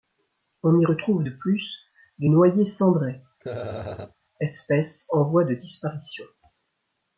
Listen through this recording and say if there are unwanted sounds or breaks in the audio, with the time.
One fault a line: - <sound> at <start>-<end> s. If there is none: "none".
- laugh at 3.4-4.1 s